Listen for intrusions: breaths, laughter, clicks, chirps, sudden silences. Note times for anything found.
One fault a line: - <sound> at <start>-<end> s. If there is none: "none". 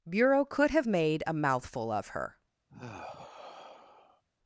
- sigh at 2.7-4.2 s